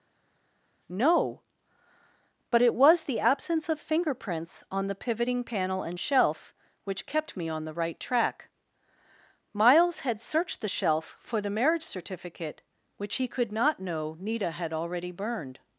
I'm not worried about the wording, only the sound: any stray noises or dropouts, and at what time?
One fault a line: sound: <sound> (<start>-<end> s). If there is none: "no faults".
no faults